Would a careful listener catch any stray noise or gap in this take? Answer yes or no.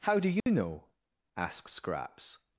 yes